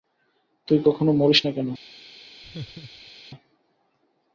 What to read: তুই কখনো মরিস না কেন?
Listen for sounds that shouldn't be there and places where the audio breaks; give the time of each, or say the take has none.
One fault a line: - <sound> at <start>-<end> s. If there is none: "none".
- laugh at 2.4-3.1 s